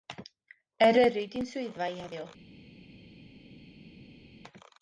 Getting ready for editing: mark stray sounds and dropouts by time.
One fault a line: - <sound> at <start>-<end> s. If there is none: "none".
none